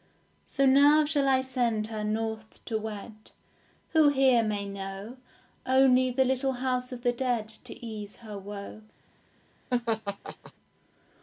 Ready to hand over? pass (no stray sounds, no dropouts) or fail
fail